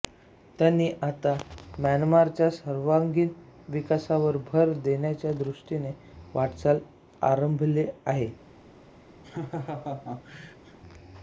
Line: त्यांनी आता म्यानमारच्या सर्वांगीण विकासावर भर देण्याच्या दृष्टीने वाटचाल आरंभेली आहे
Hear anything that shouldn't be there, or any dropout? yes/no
yes